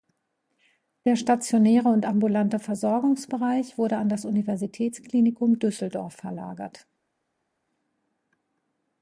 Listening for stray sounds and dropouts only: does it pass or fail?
pass